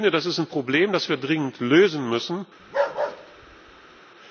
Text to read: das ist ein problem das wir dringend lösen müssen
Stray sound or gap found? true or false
true